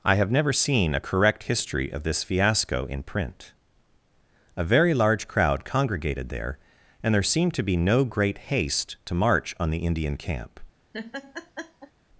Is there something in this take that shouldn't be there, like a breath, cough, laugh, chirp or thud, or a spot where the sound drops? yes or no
yes